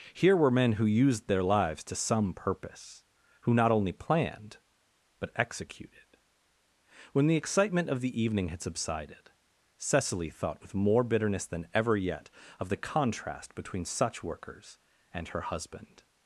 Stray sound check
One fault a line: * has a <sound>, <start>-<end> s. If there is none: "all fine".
all fine